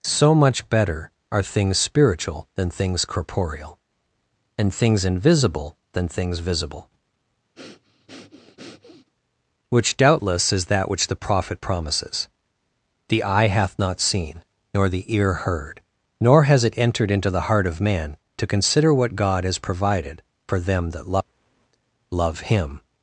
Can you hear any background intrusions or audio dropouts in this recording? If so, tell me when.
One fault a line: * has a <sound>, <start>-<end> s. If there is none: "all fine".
* has a breath, 7.5-9.1 s